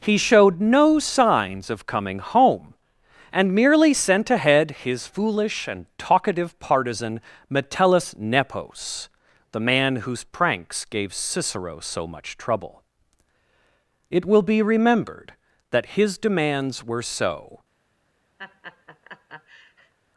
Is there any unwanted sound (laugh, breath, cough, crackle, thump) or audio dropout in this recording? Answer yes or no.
yes